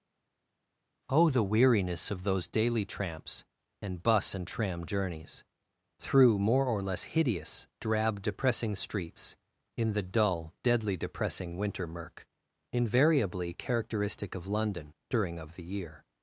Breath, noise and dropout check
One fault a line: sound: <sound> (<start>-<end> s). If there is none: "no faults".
no faults